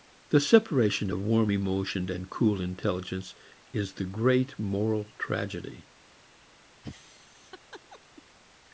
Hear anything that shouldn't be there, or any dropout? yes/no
yes